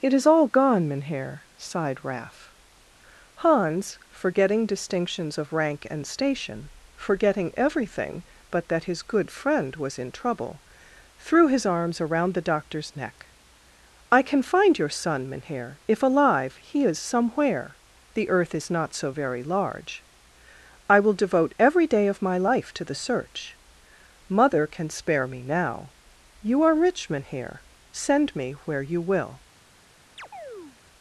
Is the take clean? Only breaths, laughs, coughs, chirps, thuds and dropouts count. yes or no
no